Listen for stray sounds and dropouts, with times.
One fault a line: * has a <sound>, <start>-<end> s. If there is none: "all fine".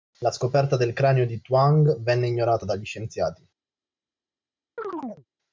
* has a chirp, 4.8-5.3 s